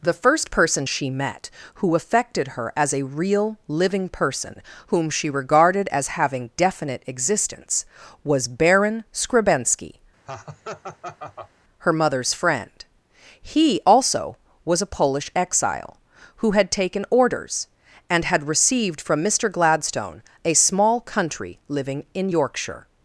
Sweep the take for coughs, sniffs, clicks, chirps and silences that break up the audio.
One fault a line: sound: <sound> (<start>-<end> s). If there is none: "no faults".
sound: laugh (10.2-11.5 s)